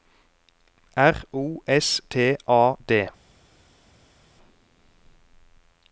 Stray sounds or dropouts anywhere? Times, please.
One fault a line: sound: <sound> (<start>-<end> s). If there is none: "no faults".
no faults